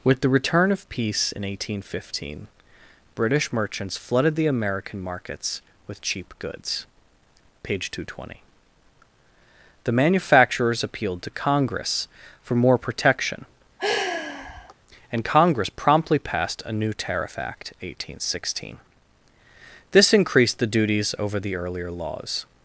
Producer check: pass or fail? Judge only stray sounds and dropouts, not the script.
fail